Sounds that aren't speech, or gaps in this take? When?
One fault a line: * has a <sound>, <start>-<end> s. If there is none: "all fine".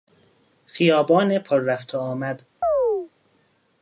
* has a chirp, 2.6-3.1 s